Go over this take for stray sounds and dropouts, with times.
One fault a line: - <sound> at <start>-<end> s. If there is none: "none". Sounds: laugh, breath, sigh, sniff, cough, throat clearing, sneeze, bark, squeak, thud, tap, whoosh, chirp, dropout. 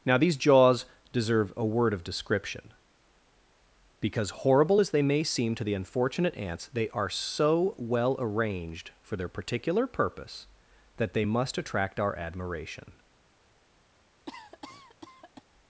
- cough at 14.3-15.4 s